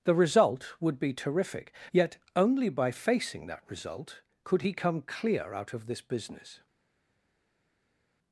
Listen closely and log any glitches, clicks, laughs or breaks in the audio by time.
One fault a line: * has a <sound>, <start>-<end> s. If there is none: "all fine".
all fine